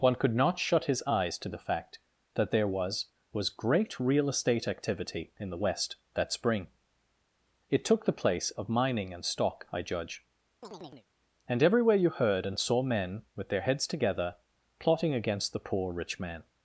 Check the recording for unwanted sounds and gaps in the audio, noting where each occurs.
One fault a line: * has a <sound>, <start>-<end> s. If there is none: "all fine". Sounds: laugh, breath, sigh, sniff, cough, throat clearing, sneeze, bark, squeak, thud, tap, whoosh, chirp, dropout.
* has a chirp, 10.6-11.1 s